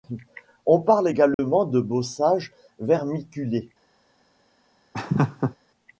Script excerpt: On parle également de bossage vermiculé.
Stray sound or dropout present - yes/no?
yes